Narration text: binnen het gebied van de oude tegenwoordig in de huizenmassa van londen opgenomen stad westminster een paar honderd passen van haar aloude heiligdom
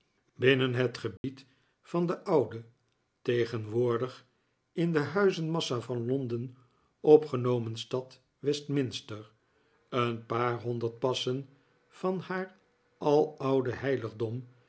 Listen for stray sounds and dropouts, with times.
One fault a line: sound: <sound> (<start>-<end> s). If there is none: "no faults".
sound: dropout (1.2-1.2 s)